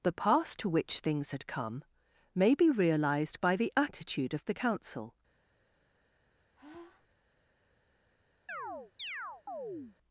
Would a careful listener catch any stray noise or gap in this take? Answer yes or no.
yes